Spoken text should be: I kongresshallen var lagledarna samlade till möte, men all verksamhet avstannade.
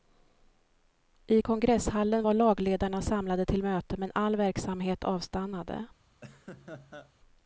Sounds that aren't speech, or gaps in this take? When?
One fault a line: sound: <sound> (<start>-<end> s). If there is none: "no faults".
sound: laugh (6.2-7.1 s)